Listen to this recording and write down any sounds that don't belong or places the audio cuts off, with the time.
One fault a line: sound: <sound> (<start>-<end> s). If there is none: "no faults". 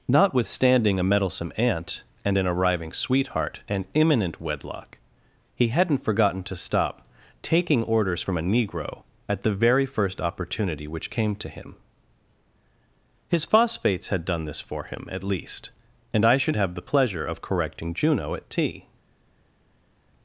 no faults